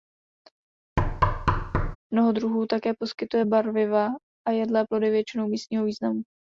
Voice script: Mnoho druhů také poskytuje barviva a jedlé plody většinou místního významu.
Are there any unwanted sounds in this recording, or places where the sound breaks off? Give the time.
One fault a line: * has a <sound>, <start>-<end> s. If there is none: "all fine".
* has a thud, 1.0-2.0 s